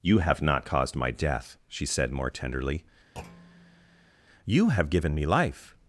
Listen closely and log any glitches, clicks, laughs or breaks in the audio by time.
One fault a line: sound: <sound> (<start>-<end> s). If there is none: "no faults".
sound: thud (3.1-4.1 s)